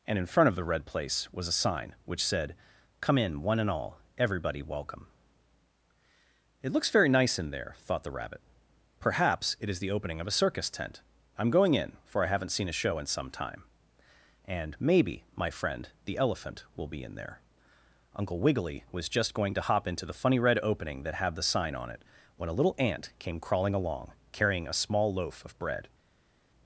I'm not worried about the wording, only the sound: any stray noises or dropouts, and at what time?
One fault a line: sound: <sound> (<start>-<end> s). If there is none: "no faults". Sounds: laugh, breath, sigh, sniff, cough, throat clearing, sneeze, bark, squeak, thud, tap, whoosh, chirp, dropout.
no faults